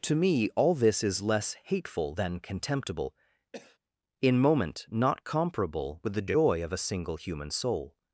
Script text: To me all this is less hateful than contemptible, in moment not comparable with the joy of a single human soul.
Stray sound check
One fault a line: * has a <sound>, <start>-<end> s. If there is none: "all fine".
* has a cough, 3.5-3.8 s